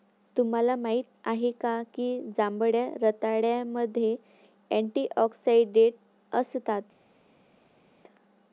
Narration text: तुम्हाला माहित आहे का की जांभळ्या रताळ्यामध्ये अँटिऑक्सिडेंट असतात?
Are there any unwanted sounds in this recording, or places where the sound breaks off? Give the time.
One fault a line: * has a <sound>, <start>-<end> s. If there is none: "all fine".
all fine